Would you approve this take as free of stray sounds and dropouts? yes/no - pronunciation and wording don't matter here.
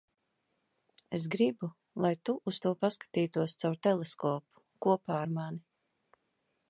yes